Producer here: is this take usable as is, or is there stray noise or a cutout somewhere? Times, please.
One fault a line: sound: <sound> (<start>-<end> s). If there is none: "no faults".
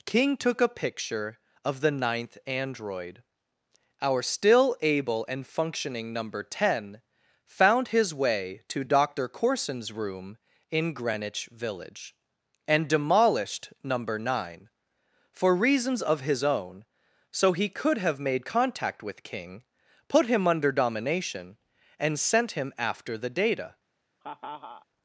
sound: laugh (24.2-24.9 s)